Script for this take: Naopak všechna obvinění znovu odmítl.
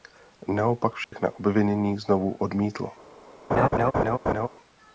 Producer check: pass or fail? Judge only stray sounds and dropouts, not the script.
fail